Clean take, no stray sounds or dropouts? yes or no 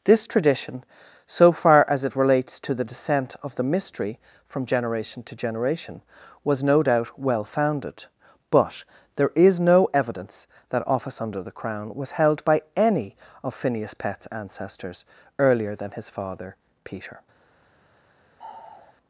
no